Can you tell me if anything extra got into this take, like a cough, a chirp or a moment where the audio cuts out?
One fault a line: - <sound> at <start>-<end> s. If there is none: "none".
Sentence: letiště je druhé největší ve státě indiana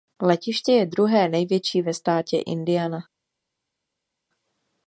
none